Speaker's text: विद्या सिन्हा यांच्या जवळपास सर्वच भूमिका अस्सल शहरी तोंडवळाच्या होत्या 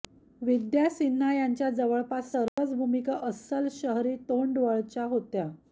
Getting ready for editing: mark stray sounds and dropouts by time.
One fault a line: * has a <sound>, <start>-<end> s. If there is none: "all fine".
* has a dropout, 2.5-2.6 s